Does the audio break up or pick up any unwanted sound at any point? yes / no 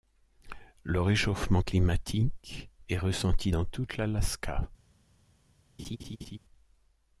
yes